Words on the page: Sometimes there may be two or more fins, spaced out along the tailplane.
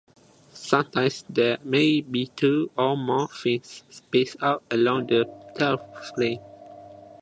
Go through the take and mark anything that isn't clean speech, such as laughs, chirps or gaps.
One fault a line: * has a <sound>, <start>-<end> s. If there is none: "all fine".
all fine